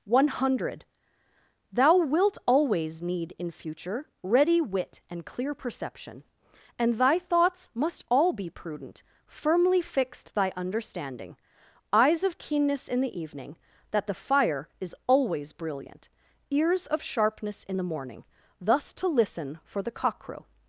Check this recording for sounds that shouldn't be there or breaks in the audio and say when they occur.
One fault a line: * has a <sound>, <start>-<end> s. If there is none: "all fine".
all fine